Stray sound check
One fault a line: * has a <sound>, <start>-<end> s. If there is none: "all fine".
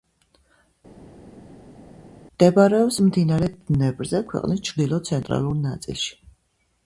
all fine